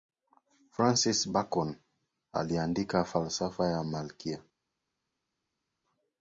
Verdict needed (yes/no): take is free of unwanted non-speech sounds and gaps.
yes